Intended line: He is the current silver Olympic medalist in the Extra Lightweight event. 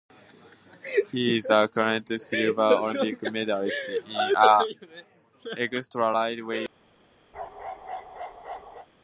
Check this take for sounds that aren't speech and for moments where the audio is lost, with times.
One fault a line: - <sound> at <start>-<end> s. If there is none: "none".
- bark at 7.3-8.9 s